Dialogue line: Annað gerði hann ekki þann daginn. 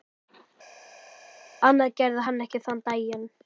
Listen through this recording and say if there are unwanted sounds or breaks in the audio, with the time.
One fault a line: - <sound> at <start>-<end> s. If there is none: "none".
none